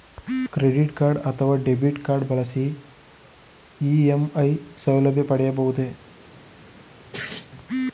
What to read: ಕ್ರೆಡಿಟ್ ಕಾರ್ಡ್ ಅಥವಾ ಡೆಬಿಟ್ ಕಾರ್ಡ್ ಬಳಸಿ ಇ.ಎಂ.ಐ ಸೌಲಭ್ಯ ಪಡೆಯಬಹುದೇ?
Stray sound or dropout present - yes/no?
yes